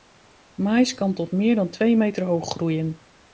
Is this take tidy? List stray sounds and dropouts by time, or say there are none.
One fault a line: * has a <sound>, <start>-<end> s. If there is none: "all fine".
all fine